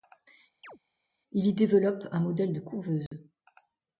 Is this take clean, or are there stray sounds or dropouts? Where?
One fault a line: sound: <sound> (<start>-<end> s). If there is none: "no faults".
sound: chirp (0.6-0.8 s)
sound: dropout (3.1-3.1 s)